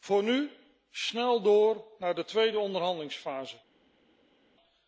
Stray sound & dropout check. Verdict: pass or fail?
pass